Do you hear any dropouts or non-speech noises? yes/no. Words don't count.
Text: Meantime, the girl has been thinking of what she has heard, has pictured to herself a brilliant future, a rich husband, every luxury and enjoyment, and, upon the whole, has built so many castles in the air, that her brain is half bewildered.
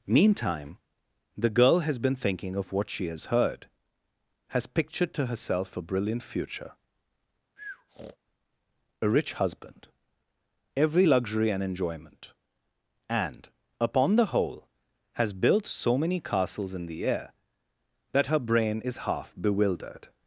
yes